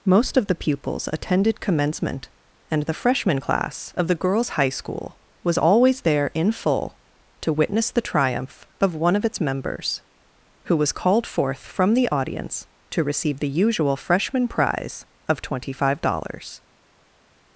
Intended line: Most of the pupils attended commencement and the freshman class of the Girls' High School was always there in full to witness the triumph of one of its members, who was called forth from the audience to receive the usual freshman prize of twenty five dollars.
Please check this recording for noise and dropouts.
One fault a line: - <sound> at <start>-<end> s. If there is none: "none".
none